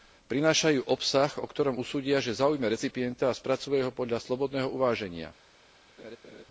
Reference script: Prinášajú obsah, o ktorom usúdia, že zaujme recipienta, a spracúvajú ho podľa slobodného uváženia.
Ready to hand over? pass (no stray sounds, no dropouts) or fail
fail